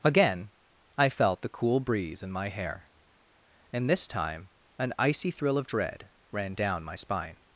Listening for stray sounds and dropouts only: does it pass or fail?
pass